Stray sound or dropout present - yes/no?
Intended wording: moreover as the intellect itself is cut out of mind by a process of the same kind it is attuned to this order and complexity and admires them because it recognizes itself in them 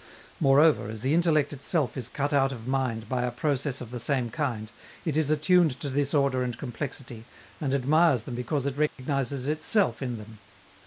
yes